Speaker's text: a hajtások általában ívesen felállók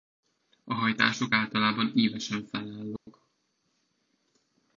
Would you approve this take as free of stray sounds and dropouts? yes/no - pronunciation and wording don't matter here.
no